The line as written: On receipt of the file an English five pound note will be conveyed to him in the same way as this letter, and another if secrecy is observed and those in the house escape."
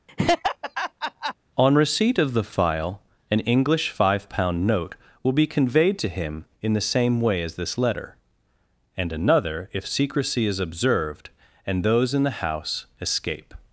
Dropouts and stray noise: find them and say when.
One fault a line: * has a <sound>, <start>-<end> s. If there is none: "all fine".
* has a laugh, 0.1-1.3 s